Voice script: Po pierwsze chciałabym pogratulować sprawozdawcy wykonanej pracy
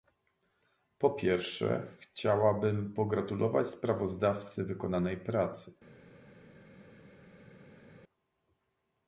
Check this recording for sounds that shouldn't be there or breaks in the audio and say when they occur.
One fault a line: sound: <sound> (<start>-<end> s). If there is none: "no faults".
no faults